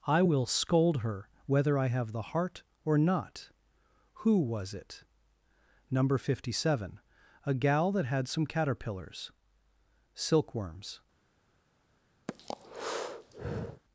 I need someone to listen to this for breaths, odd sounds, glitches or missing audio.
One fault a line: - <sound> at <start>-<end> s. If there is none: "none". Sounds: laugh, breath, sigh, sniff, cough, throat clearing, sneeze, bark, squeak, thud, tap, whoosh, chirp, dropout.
- breath at 12.3-13.8 s